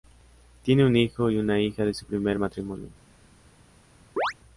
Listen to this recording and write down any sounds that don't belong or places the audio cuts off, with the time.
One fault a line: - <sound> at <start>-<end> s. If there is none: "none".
- chirp at 4.2-4.3 s